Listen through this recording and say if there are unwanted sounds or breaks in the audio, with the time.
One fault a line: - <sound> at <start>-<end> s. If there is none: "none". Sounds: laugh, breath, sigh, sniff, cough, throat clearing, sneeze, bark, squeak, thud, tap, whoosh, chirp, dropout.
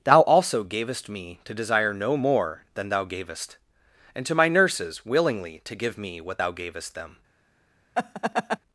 - laugh at 7.9-8.6 s